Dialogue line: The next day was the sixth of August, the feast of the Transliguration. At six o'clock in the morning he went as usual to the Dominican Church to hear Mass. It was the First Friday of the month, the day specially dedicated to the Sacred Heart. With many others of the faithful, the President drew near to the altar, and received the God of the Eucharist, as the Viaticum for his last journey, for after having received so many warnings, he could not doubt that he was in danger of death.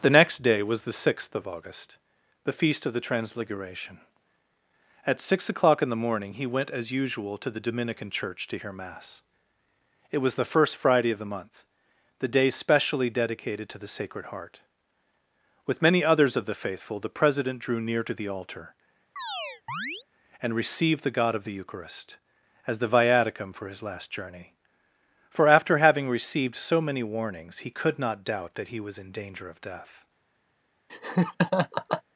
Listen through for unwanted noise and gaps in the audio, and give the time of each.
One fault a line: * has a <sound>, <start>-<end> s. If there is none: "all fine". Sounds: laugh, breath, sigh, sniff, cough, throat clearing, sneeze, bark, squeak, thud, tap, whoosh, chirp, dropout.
* has a chirp, 19.2-20.1 s
* has a laugh, 30.9-32.0 s